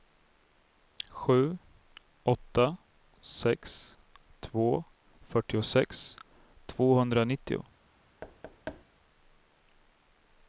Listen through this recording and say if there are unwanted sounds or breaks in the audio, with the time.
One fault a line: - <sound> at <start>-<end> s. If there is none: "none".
- thud at 8.2-8.8 s